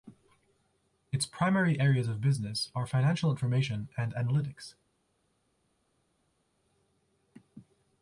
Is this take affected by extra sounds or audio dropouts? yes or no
no